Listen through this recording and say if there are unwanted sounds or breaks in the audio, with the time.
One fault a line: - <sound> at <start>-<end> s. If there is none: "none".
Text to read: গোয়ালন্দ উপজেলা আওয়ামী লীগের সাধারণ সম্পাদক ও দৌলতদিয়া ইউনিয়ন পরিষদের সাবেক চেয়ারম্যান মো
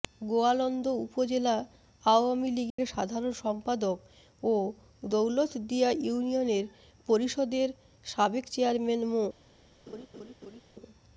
- dropout at 2.7-2.8 s
- laugh at 9.9-10.6 s